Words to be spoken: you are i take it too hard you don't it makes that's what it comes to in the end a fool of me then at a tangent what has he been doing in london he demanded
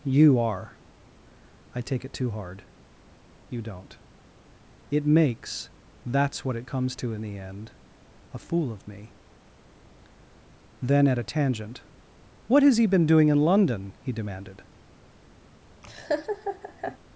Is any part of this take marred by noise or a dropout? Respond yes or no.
yes